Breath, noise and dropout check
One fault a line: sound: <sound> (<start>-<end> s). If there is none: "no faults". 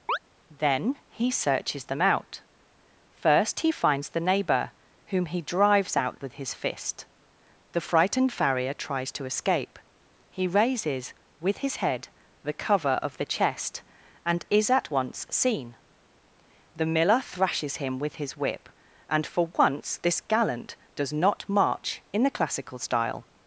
sound: chirp (0.1-0.2 s)